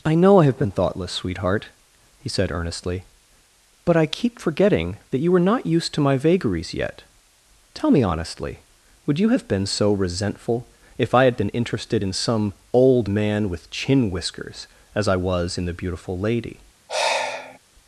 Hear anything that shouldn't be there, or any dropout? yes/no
yes